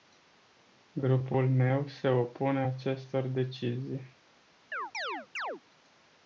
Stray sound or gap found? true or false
true